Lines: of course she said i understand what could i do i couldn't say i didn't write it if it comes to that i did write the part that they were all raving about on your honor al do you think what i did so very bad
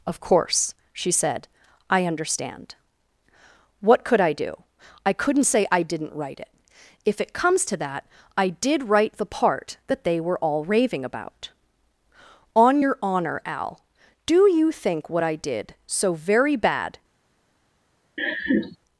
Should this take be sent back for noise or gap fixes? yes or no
yes